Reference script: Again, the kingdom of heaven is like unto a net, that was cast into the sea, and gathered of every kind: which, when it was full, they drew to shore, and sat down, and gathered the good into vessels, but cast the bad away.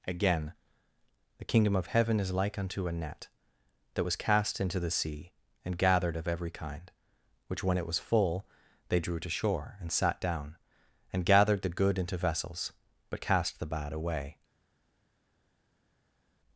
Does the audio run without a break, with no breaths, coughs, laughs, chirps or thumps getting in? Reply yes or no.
yes